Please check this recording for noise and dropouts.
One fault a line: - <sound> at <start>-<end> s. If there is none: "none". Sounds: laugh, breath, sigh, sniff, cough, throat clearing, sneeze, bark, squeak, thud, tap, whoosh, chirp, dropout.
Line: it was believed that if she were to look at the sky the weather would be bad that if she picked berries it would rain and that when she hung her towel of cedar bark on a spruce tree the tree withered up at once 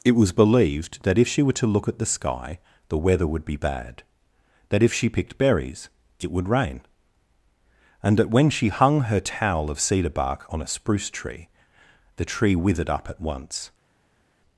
none